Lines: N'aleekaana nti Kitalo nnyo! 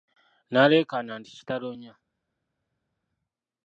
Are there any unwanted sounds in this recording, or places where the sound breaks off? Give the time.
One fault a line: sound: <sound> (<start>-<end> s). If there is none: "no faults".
no faults